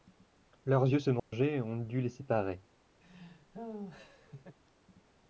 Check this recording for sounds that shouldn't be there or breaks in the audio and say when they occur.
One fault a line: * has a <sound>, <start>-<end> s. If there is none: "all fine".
* has a dropout, 1.2-1.3 s
* has a laugh, 3.0-4.6 s